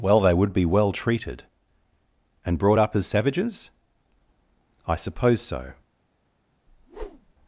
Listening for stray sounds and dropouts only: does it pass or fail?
fail